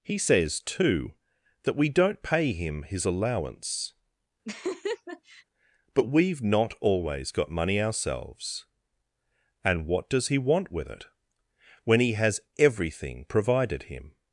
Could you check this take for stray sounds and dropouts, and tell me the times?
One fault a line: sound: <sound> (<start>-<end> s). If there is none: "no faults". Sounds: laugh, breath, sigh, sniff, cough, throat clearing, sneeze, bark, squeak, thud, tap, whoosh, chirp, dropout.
sound: laugh (4.4-5.4 s)